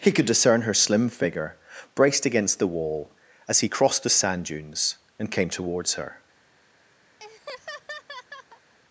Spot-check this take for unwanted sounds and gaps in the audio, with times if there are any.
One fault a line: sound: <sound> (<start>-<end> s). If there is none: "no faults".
sound: laugh (7.2-8.7 s)